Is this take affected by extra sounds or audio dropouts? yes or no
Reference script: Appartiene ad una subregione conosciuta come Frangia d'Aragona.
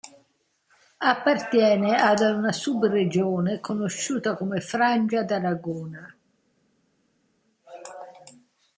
no